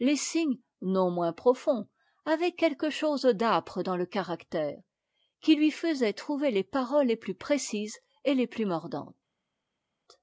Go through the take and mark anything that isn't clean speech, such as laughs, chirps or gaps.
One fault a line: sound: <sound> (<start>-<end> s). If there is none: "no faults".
no faults